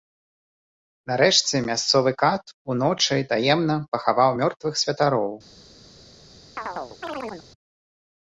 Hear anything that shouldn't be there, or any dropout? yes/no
yes